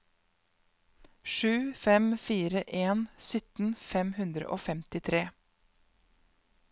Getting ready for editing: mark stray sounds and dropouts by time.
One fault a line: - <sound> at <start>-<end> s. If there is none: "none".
none